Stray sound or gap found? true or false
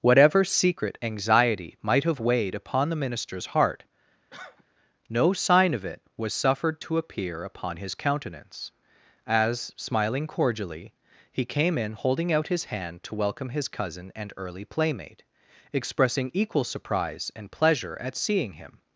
true